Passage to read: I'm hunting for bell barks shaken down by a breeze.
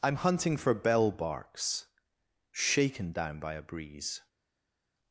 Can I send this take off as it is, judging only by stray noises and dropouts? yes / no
yes